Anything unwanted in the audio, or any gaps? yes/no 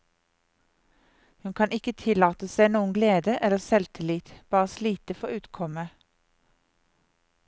no